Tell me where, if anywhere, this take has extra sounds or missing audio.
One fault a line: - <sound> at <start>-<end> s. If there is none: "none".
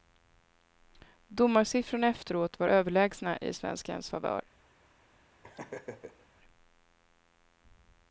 - laugh at 5.4-6.3 s